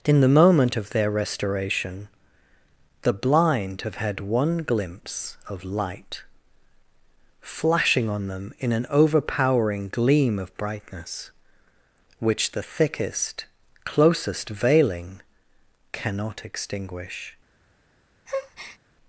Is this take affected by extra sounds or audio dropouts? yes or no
yes